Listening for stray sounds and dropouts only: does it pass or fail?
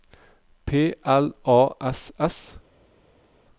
pass